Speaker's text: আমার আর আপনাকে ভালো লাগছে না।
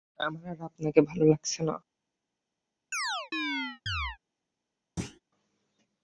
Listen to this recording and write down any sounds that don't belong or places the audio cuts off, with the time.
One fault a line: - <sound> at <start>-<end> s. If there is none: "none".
- chirp at 2.9-4.2 s
- thud at 5.0-5.2 s